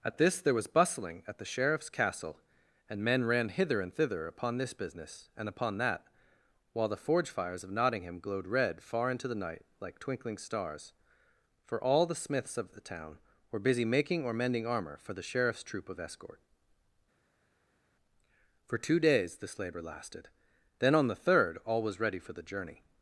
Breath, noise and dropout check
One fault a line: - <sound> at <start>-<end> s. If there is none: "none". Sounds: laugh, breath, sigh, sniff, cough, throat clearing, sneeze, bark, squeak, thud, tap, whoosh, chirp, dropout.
none